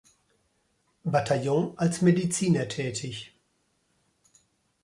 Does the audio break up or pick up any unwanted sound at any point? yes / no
no